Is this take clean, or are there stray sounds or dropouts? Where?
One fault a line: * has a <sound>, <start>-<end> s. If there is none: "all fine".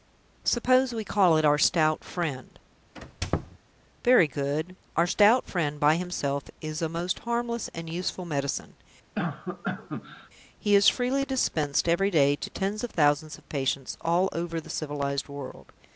* has a squeak, 3.0-3.6 s
* has a cough, 9.1-10.3 s